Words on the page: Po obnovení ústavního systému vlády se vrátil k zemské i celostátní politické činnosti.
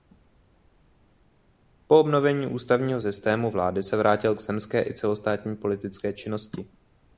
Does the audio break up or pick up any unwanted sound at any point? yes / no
no